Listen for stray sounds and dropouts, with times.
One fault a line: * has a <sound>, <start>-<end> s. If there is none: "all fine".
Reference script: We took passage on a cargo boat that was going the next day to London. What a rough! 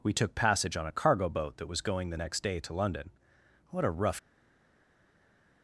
all fine